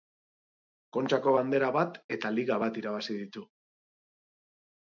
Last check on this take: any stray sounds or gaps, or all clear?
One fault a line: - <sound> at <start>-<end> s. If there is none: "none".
none